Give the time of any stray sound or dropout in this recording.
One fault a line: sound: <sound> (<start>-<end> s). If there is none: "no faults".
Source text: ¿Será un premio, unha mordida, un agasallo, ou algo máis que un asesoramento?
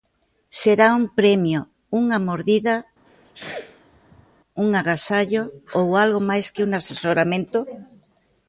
sound: sneeze (3.1-4.3 s)